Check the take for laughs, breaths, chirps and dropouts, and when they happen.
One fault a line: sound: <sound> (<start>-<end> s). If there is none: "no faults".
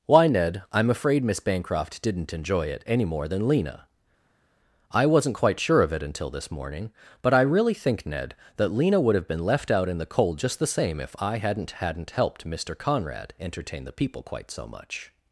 no faults